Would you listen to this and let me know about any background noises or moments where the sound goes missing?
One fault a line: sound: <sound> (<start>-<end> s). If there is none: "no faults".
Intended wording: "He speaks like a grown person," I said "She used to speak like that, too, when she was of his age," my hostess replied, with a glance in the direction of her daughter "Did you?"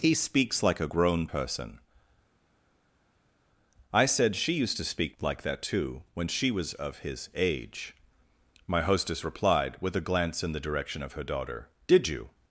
no faults